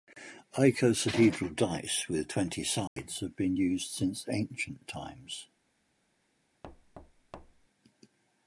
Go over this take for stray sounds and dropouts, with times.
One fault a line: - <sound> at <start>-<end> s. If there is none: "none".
- dropout at 2.9-3.0 s
- thud at 6.6-7.7 s